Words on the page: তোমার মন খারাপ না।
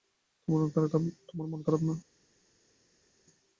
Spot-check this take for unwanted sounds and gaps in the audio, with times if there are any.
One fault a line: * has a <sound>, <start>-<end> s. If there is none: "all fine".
all fine